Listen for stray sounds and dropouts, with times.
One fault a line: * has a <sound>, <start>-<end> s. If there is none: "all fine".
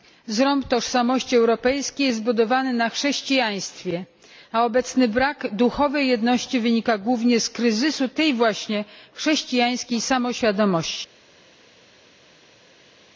all fine